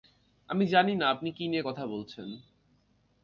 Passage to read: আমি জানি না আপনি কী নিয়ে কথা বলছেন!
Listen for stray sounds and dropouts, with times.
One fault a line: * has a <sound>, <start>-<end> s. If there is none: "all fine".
all fine